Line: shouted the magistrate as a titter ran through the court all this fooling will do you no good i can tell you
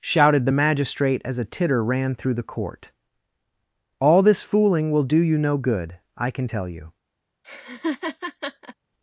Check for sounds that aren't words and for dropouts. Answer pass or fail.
fail